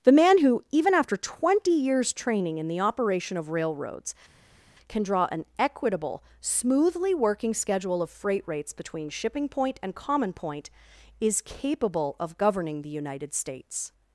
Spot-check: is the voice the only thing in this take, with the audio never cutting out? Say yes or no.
yes